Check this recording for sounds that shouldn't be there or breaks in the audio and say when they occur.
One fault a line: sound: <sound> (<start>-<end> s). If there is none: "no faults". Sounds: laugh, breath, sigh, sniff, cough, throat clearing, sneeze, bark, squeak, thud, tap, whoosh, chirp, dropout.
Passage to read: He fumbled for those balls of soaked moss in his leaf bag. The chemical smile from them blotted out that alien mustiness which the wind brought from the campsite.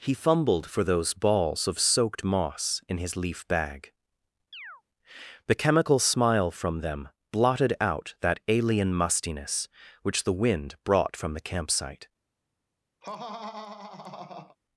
sound: chirp (4.5-4.8 s)
sound: laugh (13.0-14.6 s)